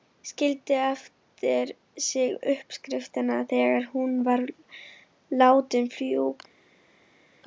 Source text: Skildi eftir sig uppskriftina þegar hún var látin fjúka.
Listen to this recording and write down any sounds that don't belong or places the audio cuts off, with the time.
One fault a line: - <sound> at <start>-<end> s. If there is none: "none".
none